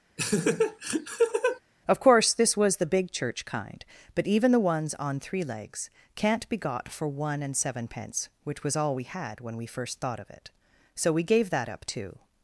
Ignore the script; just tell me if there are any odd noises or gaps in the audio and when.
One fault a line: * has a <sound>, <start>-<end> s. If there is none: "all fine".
* has a laugh, 0.2-1.6 s